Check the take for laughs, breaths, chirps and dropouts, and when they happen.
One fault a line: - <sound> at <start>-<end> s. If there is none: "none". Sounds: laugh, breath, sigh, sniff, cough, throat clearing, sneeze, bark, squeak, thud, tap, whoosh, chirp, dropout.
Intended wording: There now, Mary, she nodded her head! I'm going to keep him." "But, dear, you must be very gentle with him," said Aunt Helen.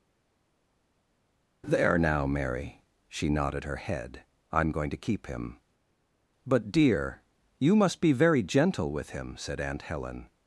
none